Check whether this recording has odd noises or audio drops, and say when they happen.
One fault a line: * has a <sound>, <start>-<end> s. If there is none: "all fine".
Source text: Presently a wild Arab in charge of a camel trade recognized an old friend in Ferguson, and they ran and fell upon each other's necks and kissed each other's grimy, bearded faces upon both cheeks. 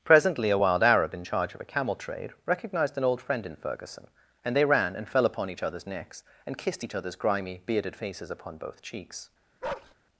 * has a bark, 9.6-9.9 s